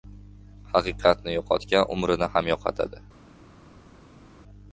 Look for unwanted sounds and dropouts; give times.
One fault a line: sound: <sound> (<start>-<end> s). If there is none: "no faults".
no faults